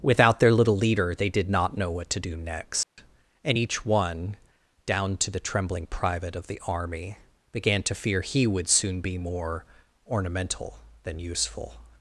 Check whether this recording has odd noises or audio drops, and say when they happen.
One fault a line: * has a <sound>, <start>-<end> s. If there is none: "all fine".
* has a dropout, 2.8-3.0 s